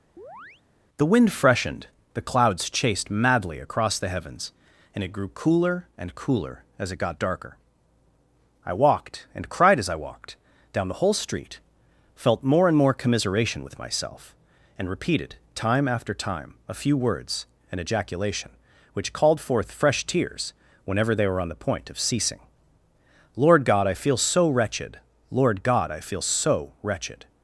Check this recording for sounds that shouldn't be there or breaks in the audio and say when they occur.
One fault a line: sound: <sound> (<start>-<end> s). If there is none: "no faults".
sound: chirp (0.2-0.6 s)